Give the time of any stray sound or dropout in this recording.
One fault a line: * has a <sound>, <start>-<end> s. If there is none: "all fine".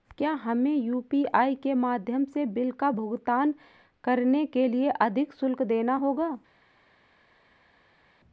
all fine